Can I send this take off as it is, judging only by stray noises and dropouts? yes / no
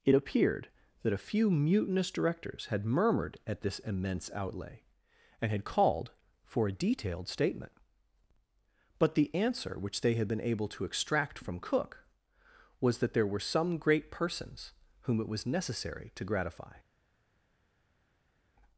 yes